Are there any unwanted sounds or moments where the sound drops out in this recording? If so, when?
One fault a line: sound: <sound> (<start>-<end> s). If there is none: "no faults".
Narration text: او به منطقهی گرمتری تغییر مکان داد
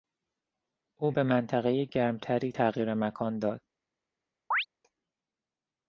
sound: chirp (4.5-4.7 s)